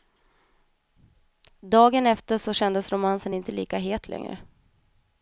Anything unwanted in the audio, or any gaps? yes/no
no